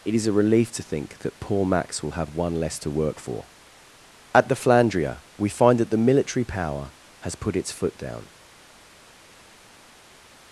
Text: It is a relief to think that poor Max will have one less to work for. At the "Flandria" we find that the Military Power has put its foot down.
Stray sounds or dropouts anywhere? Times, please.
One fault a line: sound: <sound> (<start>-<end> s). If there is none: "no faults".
no faults